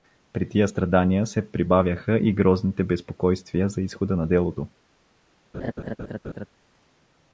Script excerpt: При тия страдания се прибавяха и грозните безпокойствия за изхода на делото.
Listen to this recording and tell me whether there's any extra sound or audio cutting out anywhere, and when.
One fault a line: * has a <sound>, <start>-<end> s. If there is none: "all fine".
* has a laugh, 5.5-6.5 s